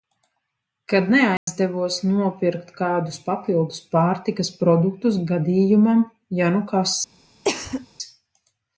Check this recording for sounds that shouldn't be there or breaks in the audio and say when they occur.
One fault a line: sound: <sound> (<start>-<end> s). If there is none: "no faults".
sound: dropout (1.4-1.5 s)
sound: cough (7.4-7.9 s)